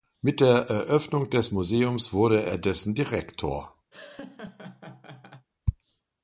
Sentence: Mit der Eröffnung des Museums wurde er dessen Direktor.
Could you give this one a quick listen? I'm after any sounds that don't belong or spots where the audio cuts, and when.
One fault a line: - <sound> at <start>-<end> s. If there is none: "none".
- laugh at 3.9-5.5 s